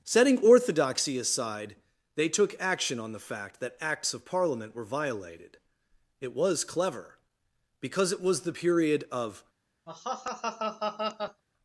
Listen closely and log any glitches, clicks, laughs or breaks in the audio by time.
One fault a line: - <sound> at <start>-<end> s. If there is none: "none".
- laugh at 9.9-11.4 s